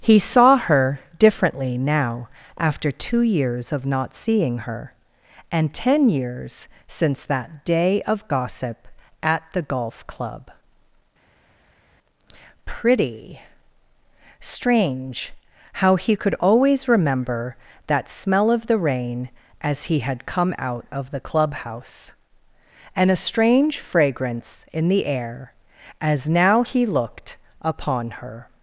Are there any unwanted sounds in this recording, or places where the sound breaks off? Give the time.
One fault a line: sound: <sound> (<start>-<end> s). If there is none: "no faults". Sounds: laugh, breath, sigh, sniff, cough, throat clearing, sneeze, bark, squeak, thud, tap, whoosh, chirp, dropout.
no faults